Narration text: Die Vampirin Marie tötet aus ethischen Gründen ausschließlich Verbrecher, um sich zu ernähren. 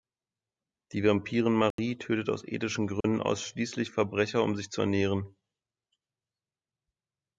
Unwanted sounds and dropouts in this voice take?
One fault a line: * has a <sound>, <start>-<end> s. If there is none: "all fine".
* has a dropout, 1.7-1.8 s
* has a dropout, 3.0-3.0 s